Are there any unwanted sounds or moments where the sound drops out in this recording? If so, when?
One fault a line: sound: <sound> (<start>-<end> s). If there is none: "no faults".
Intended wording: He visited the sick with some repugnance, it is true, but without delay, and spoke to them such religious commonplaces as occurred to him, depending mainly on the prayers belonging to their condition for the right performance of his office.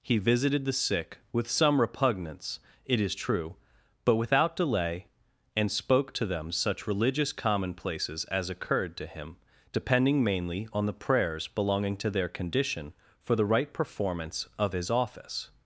no faults